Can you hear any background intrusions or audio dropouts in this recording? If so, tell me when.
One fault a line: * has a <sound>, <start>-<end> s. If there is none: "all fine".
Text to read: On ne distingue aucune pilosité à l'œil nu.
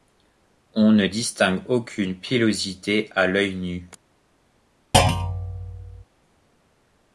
* has a thud, 4.9-6.0 s